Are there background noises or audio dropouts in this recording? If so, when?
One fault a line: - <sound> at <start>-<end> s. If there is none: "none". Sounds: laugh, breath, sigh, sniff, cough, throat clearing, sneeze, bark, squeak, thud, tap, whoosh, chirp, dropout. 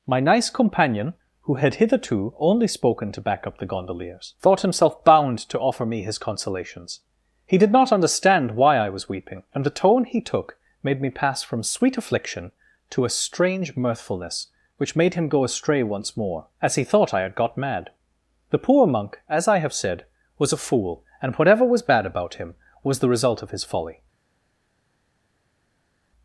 none